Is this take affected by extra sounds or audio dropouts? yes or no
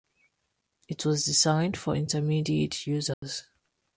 yes